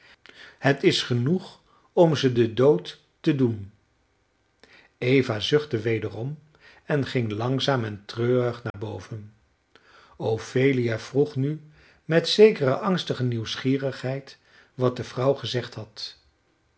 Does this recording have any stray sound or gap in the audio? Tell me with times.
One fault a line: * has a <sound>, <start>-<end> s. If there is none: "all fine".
* has a dropout, 8.7-8.7 s